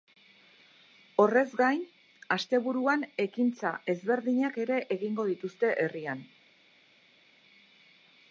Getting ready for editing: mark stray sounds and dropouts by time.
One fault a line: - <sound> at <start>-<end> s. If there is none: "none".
none